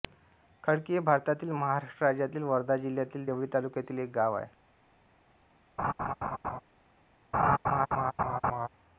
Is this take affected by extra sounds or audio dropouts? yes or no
yes